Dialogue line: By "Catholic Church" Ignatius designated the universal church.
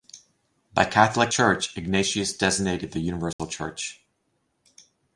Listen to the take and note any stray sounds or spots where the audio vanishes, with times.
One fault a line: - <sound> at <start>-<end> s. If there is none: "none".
- dropout at 3.3-3.4 s